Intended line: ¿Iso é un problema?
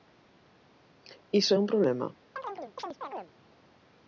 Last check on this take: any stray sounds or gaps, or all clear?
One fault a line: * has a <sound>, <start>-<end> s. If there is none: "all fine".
* has a chirp, 2.4-3.3 s